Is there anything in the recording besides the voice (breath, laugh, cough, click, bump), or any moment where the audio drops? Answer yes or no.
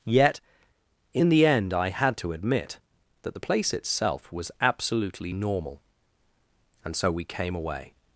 no